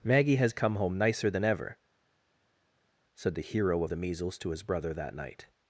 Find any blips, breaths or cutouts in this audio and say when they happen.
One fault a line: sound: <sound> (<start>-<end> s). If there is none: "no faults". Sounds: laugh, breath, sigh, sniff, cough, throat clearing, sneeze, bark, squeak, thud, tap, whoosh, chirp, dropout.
no faults